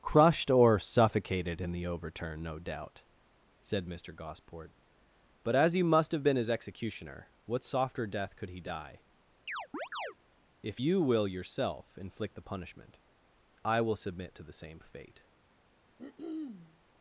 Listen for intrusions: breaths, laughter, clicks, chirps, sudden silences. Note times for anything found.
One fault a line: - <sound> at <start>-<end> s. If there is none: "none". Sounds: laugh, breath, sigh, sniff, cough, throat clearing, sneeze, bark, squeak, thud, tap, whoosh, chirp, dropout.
- chirp at 9.5-10.2 s
- throat clearing at 16.0-16.8 s